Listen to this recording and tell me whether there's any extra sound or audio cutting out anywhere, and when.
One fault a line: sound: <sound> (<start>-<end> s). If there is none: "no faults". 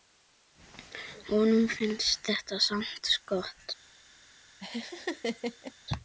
sound: laugh (4.6-5.7 s)